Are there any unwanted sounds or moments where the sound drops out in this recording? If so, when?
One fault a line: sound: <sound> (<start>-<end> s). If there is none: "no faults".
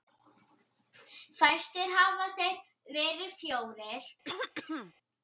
sound: throat clearing (4.2-4.9 s)